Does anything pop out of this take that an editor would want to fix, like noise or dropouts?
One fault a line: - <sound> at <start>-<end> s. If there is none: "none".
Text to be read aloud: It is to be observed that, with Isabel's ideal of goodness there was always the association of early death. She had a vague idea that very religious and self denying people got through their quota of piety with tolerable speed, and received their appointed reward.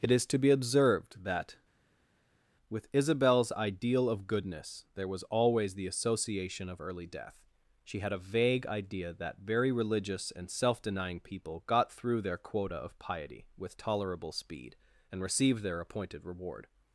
none